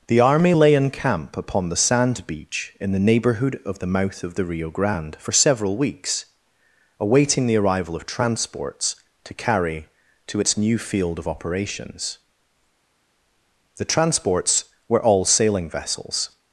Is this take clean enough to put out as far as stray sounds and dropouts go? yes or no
yes